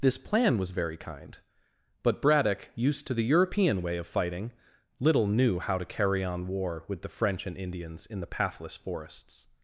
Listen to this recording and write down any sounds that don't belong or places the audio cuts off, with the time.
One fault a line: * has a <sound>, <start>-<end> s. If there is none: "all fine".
all fine